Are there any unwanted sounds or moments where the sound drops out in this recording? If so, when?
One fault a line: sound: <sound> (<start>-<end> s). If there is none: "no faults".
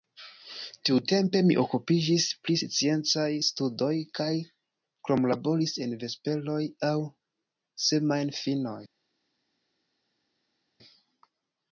no faults